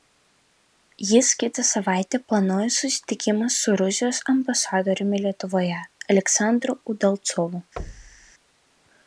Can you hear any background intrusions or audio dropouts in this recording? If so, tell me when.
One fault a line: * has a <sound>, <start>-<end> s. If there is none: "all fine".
* has a thud, 7.8-8.3 s